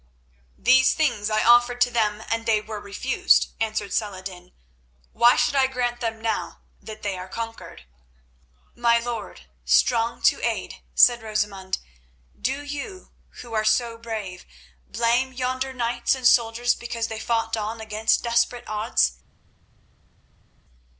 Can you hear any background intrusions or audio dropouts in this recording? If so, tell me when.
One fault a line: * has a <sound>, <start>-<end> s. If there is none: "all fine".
all fine